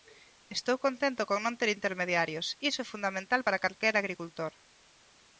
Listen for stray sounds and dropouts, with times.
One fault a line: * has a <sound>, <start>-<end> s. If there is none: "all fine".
all fine